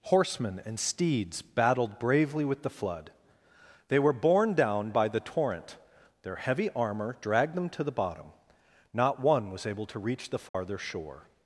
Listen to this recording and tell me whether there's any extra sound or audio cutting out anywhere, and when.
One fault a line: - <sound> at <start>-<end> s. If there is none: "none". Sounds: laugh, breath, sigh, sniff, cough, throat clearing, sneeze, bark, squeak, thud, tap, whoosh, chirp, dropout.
- dropout at 10.5-10.5 s